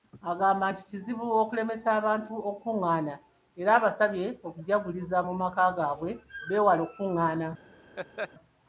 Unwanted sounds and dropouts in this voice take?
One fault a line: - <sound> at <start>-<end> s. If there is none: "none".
- laugh at 8.0-8.3 s